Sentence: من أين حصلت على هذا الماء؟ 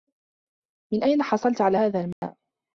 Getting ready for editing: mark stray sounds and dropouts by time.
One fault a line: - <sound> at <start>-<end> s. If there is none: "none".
- dropout at 2.1-2.2 s